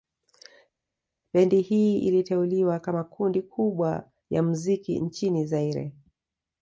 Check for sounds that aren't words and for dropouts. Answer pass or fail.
pass